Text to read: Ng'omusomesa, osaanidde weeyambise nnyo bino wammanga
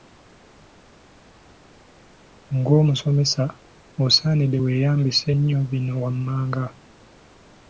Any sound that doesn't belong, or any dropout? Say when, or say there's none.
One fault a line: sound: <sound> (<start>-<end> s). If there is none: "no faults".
no faults